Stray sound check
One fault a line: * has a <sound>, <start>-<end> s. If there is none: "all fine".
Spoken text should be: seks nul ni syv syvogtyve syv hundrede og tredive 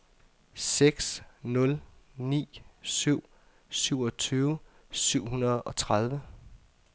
all fine